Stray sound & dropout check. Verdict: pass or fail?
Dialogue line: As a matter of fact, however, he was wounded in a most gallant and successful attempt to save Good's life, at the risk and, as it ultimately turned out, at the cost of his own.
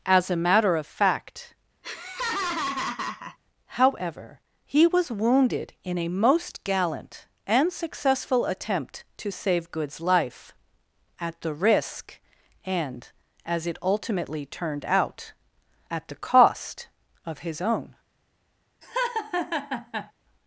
fail